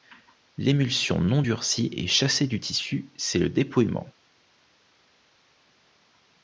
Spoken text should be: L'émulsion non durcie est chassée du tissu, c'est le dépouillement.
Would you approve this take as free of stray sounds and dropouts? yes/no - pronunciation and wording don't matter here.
yes